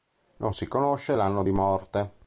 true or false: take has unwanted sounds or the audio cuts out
false